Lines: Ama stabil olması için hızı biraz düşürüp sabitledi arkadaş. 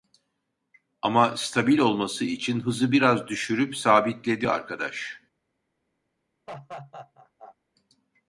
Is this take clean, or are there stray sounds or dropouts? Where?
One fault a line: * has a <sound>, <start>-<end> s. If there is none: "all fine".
* has a laugh, 6.5-7.6 s